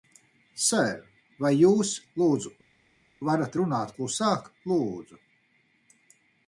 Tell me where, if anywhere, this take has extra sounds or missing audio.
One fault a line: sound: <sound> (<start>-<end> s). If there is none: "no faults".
no faults